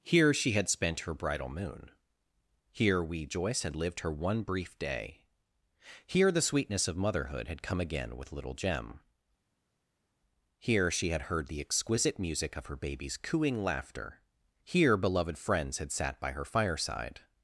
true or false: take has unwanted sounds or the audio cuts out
false